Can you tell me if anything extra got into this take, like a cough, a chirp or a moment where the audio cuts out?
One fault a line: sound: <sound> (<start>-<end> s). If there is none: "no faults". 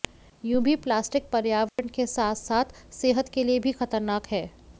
sound: dropout (1.7-1.8 s)